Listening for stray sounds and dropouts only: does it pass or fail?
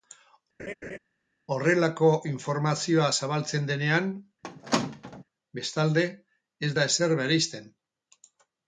fail